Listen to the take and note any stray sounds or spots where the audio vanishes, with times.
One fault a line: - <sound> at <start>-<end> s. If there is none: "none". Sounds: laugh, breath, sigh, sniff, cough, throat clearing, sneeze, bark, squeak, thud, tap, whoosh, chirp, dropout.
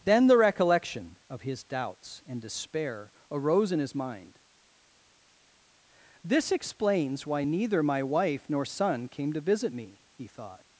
none